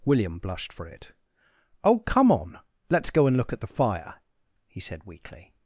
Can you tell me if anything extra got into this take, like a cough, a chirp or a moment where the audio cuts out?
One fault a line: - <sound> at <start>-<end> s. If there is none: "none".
none